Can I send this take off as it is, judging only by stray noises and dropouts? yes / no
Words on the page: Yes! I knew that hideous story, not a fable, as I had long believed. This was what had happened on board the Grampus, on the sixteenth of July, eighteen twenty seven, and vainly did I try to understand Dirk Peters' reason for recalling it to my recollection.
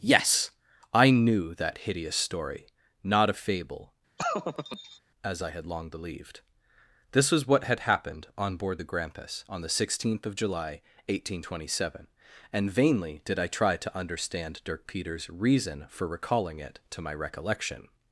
no